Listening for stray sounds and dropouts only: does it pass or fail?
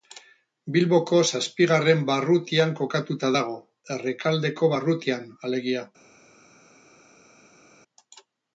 pass